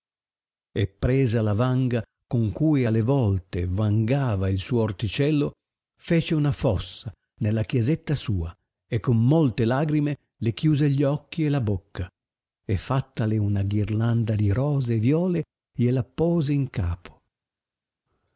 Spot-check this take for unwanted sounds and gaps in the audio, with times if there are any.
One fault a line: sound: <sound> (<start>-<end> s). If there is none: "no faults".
no faults